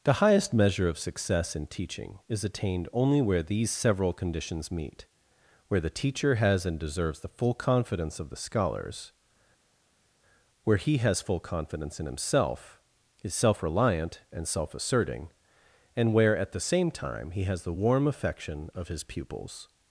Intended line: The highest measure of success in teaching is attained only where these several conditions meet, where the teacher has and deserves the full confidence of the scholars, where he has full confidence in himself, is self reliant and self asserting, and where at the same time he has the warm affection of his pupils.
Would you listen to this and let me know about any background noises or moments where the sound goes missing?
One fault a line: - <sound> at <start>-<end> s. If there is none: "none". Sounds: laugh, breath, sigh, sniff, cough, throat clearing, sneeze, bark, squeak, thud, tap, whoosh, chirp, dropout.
none